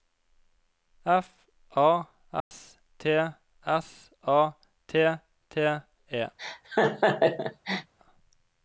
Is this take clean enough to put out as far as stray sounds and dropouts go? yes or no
no